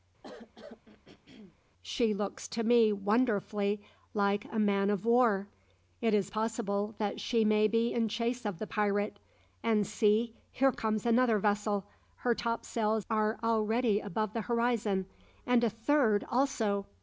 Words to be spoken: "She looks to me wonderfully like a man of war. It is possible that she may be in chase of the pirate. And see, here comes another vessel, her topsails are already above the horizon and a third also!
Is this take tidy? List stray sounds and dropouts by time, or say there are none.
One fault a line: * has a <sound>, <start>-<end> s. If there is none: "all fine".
* has a throat clearing, 0.2-1.6 s